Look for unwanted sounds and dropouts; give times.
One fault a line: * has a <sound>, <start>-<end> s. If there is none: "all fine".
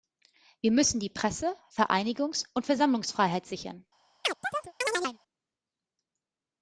* has a chirp, 4.2-5.2 s